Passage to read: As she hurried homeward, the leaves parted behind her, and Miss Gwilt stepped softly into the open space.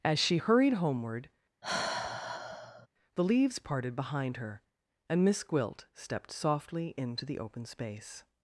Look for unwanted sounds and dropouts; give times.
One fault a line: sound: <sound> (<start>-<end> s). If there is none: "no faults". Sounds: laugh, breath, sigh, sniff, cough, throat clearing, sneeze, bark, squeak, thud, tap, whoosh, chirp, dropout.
sound: sigh (1.6-2.9 s)